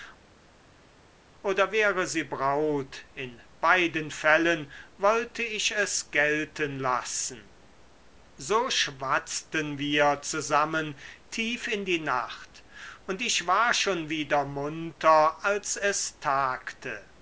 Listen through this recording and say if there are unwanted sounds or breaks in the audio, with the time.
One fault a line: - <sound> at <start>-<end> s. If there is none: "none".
none